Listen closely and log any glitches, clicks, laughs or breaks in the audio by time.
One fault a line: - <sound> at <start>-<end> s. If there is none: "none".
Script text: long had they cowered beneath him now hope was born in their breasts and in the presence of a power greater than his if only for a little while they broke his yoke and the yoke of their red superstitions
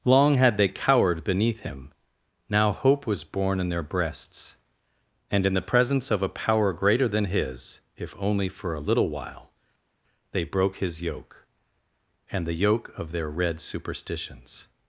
none